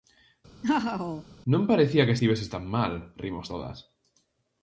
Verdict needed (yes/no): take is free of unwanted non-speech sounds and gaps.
no